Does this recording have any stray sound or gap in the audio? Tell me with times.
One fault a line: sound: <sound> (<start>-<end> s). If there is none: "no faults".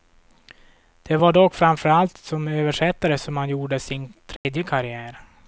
sound: dropout (4.4-4.4 s)